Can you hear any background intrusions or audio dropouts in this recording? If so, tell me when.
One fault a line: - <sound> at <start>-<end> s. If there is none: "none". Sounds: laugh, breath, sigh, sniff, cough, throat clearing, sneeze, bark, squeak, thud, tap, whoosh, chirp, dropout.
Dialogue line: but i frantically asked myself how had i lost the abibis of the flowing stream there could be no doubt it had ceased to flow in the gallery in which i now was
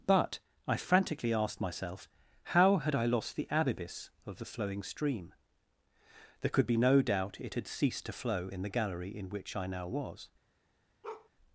- bark at 11.0-11.3 s